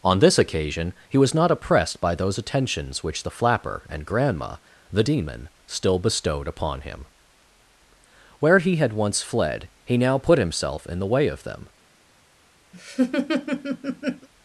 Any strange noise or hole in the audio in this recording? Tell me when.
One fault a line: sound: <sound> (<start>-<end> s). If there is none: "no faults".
sound: laugh (12.7-14.3 s)